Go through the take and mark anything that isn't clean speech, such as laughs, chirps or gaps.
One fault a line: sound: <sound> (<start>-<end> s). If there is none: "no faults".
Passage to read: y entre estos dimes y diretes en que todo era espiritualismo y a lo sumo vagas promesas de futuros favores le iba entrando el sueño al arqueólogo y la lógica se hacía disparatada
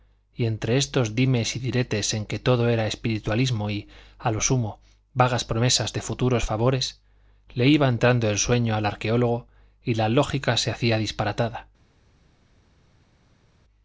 no faults